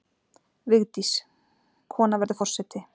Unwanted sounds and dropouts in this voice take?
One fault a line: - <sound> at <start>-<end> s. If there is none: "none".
none